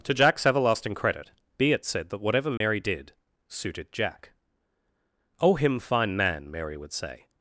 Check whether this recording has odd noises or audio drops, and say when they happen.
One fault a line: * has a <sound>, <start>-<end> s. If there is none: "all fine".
* has a dropout, 2.6-2.6 s